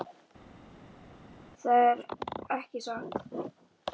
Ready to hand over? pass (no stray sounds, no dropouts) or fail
pass